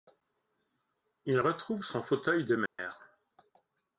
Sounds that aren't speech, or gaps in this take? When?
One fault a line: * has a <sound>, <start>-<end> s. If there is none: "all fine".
* has a dropout, 2.7-2.8 s